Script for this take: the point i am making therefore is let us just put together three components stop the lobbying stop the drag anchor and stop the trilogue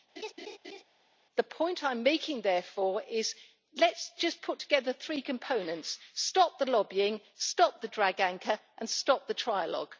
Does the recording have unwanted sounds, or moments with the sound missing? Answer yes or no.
yes